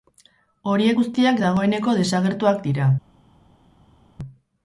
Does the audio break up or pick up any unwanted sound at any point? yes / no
no